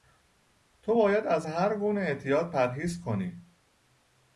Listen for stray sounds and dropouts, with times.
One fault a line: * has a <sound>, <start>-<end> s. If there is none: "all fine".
all fine